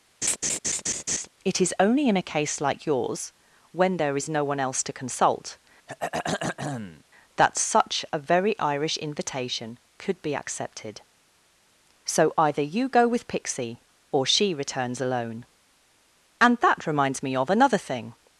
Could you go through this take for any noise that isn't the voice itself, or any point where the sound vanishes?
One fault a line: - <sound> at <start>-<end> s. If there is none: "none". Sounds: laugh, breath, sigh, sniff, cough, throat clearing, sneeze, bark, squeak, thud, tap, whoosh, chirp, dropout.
- laugh at 0.2-1.3 s
- throat clearing at 5.9-7.0 s